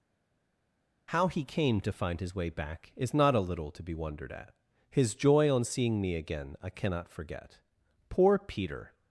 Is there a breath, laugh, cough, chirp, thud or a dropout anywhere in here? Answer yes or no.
no